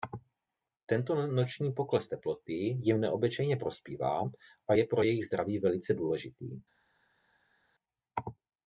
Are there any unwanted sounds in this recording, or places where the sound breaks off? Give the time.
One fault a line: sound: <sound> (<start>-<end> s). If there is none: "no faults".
no faults